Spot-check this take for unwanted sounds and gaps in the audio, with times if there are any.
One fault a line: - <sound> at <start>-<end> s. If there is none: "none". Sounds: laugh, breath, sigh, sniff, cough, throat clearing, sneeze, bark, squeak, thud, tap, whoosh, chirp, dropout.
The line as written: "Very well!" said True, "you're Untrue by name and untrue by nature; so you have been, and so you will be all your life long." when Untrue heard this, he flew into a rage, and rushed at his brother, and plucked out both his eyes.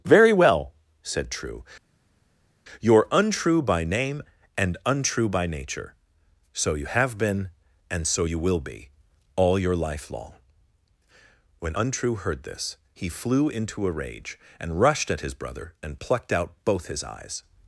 none